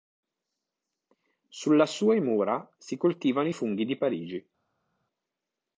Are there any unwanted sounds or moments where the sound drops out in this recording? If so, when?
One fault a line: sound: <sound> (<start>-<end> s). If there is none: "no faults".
no faults